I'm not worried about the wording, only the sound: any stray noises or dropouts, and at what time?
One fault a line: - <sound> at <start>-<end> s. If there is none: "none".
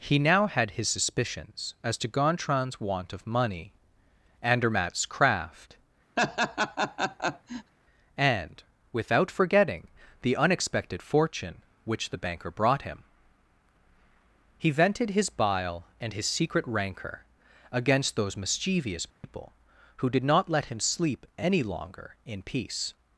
- laugh at 6.2-7.7 s
- dropout at 19.1-19.2 s